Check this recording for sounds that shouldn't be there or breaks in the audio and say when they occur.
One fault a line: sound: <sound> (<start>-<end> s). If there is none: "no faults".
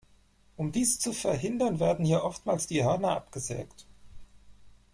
no faults